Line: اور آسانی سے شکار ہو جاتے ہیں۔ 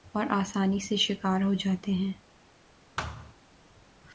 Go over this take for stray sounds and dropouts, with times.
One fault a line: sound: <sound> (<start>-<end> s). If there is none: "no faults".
sound: thud (3.0-3.3 s)